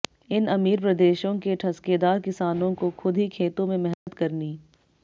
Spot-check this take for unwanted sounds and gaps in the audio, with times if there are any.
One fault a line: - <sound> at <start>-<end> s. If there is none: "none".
- dropout at 3.9-4.1 s